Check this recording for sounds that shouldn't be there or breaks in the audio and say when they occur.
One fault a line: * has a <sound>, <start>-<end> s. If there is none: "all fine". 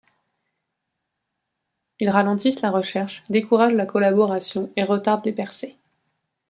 all fine